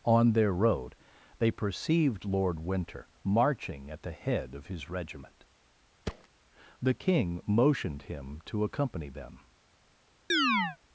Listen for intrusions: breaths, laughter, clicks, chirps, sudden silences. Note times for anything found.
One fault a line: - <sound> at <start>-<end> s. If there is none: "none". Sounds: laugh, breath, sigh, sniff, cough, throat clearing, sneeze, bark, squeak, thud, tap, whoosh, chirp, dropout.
- thud at 6.1-6.3 s
- chirp at 10.3-10.8 s